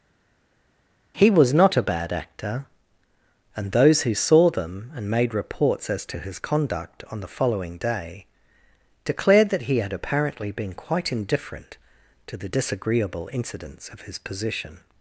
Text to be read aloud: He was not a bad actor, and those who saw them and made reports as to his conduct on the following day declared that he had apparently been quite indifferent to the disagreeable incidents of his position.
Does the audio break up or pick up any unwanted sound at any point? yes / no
no